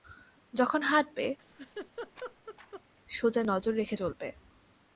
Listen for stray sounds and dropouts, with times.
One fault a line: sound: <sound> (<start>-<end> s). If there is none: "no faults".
sound: laugh (1.4-2.8 s)